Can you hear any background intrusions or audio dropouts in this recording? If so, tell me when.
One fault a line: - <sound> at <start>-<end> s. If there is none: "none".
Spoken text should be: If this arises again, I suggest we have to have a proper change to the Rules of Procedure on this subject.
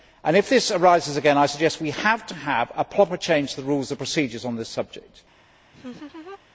- laugh at 5.7-6.4 s